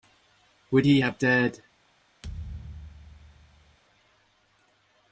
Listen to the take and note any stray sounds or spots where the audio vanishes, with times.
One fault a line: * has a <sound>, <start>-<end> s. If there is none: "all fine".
* has a thud, 2.2-3.8 s